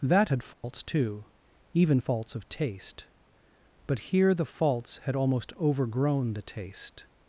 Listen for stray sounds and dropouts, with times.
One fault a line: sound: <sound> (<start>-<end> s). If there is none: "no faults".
sound: dropout (0.5-0.6 s)